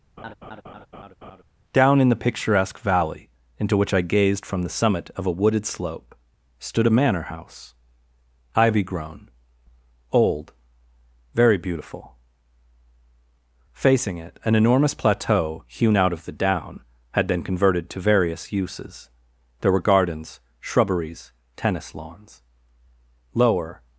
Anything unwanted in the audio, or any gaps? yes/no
yes